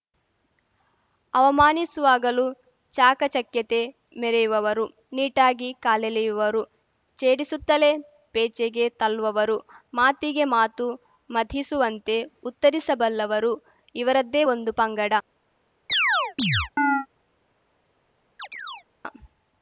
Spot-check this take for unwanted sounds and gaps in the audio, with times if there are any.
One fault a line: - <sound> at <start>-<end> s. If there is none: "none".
- chirp at 15.9-17.1 s
- chirp at 18.4-18.8 s